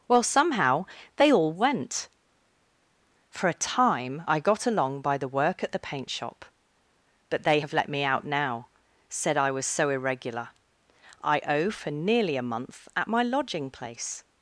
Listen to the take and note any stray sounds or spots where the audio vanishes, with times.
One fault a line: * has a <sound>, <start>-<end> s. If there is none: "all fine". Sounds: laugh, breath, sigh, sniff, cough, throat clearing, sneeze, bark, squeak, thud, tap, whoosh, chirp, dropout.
all fine